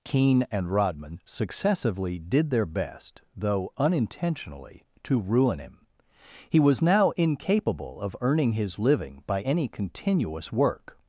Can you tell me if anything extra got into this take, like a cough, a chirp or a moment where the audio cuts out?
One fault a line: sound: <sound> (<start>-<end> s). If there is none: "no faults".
no faults